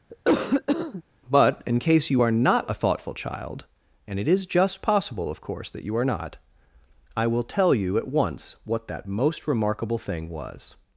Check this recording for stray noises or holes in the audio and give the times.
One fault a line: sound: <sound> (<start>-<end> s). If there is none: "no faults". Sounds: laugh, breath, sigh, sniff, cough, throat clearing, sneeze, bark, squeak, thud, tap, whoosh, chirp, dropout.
sound: cough (0.1-1.0 s)